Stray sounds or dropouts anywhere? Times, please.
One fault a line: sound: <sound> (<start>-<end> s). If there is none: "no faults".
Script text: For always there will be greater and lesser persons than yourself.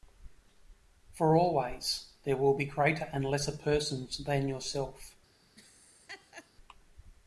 sound: laugh (5.6-6.5 s)